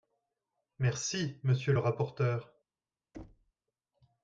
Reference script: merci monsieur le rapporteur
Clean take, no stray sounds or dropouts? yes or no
no